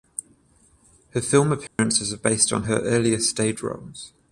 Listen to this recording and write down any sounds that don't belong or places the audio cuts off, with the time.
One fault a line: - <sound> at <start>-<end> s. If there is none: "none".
- dropout at 1.7-1.8 s